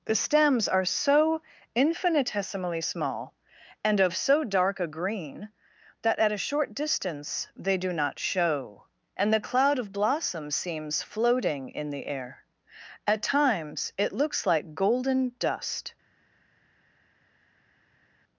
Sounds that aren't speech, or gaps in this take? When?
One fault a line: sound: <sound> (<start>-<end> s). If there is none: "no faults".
no faults